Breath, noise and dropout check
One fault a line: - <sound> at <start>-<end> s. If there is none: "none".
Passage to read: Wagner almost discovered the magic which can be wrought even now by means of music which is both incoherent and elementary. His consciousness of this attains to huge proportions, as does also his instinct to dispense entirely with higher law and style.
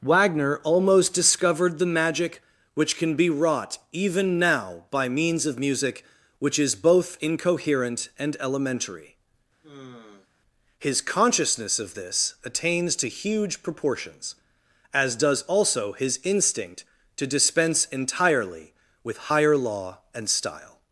- sigh at 9.6-10.3 s